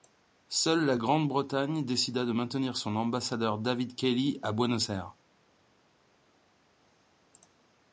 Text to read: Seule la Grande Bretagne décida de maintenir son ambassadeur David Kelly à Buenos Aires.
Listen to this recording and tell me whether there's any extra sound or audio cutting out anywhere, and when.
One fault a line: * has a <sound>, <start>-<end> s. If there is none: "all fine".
all fine